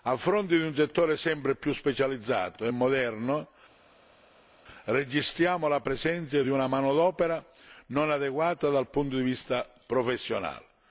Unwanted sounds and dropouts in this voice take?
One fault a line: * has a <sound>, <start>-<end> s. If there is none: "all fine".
all fine